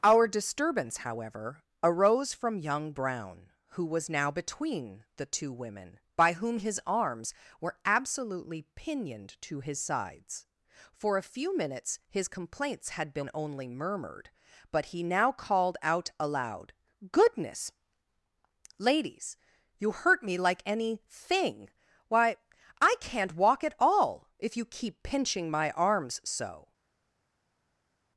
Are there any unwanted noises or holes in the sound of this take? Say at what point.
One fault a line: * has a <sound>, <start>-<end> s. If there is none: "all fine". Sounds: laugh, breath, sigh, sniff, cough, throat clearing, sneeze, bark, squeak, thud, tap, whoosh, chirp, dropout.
all fine